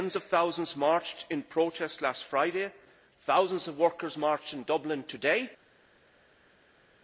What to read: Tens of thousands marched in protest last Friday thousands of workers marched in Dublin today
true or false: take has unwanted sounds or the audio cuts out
false